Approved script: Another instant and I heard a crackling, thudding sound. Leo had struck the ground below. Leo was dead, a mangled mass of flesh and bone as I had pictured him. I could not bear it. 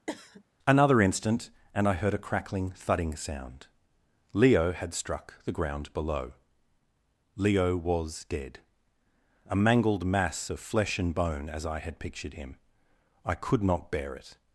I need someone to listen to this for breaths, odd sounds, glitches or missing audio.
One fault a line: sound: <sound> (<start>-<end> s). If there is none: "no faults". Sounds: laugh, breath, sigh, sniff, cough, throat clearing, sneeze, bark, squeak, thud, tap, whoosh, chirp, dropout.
sound: cough (0.1-0.4 s)